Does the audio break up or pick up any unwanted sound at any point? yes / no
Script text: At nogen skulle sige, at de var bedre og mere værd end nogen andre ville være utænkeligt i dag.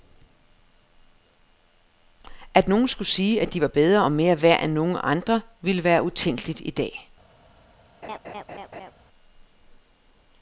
yes